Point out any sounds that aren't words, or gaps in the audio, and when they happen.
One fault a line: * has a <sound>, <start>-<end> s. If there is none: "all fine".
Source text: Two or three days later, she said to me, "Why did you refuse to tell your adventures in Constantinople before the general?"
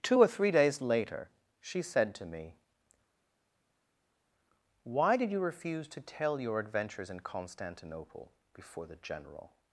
all fine